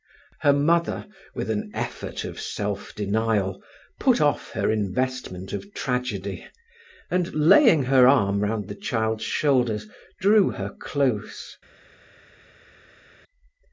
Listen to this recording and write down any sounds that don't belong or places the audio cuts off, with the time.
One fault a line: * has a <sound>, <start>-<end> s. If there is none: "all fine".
all fine